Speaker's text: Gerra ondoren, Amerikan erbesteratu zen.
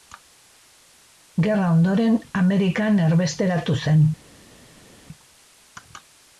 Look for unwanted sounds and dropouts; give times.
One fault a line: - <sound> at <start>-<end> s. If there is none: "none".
none